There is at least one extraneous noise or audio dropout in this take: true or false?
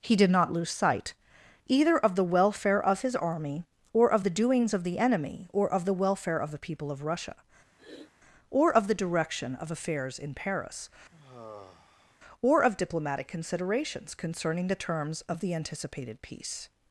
true